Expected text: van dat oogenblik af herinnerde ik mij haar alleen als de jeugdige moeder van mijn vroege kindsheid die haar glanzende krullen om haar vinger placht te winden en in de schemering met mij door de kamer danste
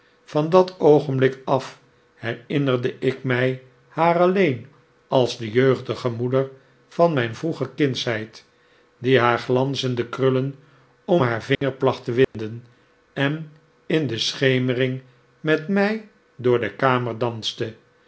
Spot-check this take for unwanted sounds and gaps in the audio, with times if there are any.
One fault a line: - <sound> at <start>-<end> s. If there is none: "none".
- dropout at 11.5-11.6 s
- dropout at 12.2-12.3 s